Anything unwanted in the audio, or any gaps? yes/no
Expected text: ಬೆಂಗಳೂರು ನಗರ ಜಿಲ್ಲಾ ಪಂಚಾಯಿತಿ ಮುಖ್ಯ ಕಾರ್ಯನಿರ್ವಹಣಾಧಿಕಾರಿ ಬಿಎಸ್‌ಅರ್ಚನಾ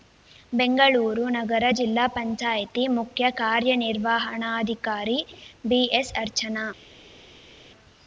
no